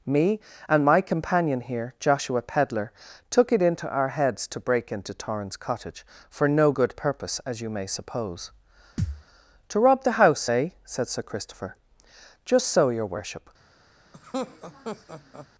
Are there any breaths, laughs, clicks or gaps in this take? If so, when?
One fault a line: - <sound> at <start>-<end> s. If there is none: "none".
- thud at 9.0-9.2 s
- laugh at 14.1-15.5 s